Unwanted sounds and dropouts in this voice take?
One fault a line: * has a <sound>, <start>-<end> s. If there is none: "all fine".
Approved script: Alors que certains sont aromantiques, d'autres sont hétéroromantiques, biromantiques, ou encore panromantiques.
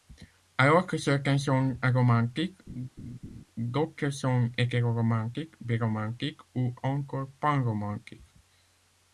* has a laugh, 2.7-3.4 s